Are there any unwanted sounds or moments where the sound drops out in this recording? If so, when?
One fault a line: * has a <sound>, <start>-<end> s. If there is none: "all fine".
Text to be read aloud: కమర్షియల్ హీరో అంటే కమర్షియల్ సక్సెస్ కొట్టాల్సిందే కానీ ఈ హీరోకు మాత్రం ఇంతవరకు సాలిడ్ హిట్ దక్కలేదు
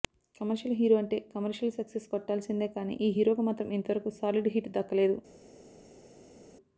all fine